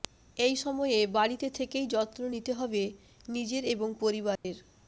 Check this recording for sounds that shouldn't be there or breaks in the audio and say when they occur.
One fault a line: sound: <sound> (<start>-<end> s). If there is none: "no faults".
sound: dropout (4.4-4.4 s)